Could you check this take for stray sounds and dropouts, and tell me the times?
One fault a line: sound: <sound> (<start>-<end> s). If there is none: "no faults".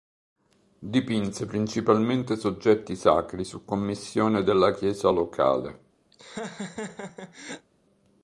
sound: laugh (6.1-7.7 s)